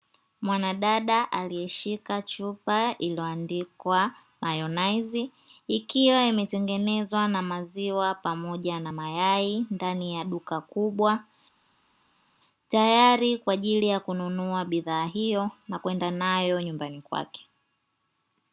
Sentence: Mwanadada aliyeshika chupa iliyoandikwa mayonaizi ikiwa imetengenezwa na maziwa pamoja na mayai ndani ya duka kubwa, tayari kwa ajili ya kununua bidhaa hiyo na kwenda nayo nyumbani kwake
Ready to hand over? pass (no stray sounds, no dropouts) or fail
pass